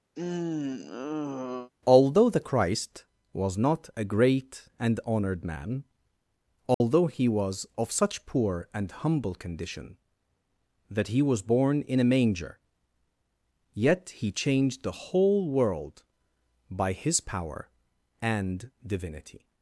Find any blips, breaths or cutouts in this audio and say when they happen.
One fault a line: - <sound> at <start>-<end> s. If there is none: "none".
- sigh at 0.2-1.7 s
- dropout at 6.7-6.8 s